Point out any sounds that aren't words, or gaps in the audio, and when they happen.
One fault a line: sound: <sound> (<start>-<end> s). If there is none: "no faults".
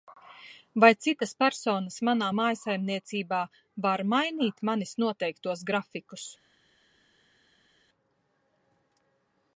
no faults